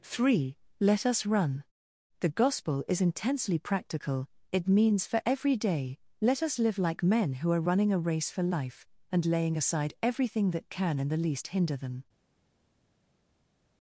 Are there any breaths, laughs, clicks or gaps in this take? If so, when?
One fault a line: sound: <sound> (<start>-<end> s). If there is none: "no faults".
no faults